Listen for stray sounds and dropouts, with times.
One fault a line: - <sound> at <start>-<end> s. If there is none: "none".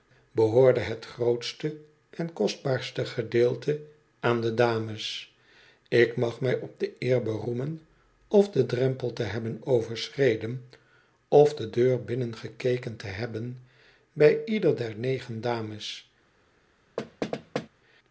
- thud at 17.0-17.7 s